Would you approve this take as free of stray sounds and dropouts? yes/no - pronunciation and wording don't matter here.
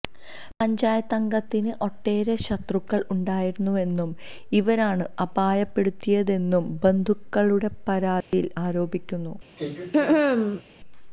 no